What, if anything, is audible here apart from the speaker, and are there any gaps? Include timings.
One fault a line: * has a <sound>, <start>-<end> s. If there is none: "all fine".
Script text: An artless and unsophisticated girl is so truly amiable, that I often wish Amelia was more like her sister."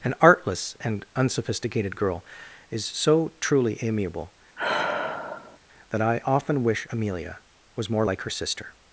* has a sigh, 4.6-5.6 s